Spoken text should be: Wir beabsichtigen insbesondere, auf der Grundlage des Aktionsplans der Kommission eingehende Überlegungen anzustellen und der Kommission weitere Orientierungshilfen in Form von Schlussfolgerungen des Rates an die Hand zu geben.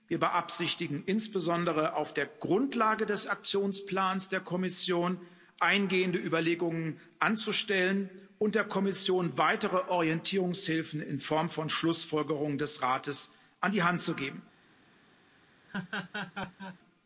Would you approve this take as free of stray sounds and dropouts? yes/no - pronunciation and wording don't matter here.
no